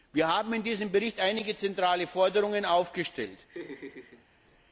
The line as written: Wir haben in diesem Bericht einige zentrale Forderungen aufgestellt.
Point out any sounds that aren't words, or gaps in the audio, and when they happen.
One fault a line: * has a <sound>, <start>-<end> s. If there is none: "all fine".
* has a laugh, 3.5-4.3 s